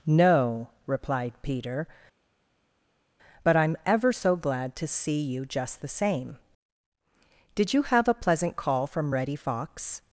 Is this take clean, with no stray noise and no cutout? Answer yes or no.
yes